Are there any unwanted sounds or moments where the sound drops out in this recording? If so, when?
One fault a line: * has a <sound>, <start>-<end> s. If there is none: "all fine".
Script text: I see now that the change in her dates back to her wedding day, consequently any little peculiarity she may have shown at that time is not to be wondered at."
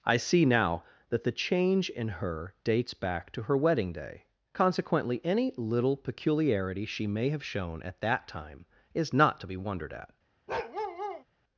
* has a bark, 10.5-11.2 s